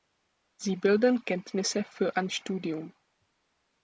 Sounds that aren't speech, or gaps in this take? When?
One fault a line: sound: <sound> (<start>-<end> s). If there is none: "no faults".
no faults